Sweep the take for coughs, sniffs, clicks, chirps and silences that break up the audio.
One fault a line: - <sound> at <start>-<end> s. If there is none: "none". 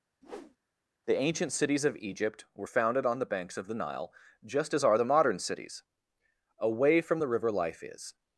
- whoosh at 0.2-0.6 s